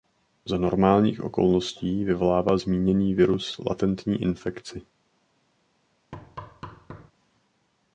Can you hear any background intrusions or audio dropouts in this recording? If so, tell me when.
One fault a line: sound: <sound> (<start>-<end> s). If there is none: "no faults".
sound: thud (6.1-7.1 s)